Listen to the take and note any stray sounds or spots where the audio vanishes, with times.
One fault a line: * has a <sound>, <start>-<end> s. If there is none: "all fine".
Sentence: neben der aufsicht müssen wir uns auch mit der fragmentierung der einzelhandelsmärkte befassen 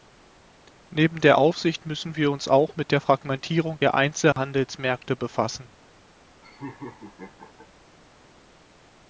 * has a dropout, 4.3-4.4 s
* has a laugh, 6.4-7.7 s